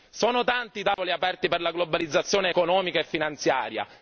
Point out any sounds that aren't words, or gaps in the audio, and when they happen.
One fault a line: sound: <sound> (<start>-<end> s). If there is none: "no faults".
sound: dropout (0.9-1.0 s)